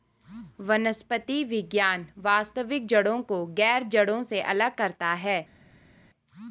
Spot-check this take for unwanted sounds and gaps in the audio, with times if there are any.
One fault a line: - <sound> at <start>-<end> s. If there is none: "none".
none